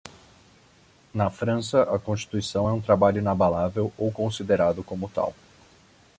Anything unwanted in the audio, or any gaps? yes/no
no